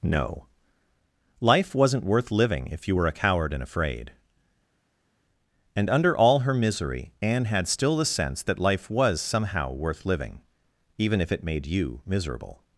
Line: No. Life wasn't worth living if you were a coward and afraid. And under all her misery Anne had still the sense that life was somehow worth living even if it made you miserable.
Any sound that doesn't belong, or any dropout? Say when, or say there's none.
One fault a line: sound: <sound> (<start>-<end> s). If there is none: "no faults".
no faults